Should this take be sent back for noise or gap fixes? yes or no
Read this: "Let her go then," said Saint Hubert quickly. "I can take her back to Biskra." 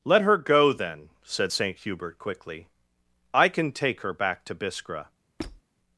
yes